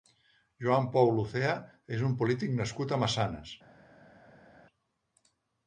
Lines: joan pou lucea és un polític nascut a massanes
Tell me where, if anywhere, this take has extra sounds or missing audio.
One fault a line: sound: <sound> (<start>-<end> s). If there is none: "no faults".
no faults